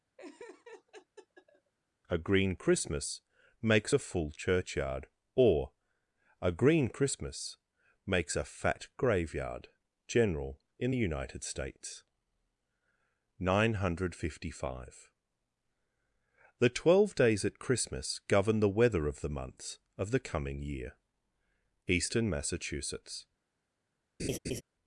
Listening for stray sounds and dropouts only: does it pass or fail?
fail